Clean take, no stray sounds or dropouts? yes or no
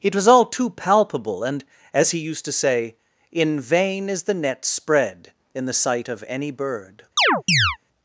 no